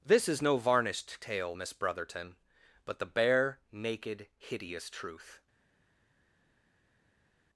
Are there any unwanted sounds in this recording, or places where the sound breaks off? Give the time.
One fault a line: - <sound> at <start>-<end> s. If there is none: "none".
none